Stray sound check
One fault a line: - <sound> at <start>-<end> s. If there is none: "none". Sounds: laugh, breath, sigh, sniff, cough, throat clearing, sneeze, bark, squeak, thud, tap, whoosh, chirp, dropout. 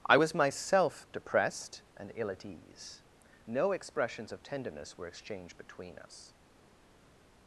none